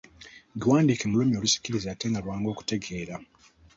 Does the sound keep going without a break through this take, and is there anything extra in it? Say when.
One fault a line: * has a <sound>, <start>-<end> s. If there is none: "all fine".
all fine